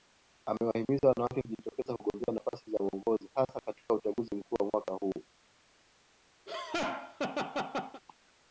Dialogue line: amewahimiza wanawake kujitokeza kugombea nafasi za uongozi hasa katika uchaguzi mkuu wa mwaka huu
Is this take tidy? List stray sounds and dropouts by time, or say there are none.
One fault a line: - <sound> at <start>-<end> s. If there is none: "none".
- laugh at 6.5-8.0 s